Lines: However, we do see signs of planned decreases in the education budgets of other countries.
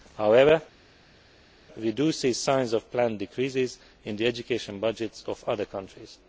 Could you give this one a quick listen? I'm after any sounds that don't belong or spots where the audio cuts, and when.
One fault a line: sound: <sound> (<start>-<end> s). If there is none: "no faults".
no faults